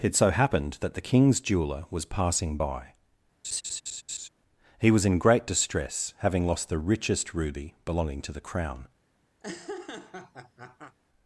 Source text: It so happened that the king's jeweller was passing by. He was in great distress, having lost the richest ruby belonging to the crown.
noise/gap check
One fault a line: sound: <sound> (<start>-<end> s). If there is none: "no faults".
sound: laugh (3.4-4.3 s)
sound: laugh (9.4-11.0 s)